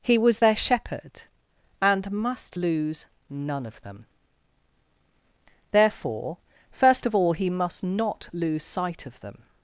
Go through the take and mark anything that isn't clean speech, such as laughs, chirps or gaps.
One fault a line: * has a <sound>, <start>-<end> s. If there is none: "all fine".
all fine